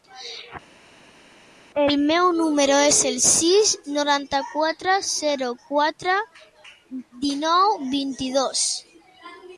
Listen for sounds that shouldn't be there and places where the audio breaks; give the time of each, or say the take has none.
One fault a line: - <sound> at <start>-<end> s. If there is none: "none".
none